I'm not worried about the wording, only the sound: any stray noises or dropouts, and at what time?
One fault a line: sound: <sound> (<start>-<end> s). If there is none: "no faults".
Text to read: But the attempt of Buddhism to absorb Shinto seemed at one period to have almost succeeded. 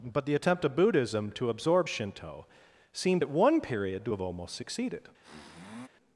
sound: sniff (5.2-5.9 s)